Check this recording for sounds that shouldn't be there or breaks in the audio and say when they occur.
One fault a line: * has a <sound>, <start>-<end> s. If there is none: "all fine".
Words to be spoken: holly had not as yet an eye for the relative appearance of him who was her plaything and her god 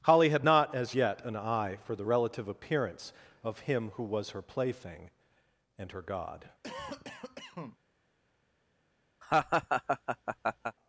* has a cough, 6.6-7.8 s
* has a laugh, 9.2-10.8 s